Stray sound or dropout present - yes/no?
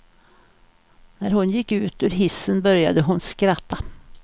no